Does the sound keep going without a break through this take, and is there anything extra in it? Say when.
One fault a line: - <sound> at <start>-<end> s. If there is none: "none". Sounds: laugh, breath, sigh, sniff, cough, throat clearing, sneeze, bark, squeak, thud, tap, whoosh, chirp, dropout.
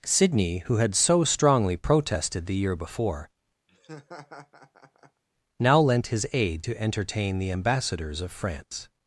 - laugh at 3.7-5.2 s